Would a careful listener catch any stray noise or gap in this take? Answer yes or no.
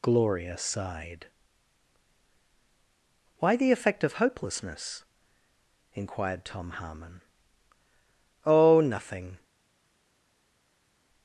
no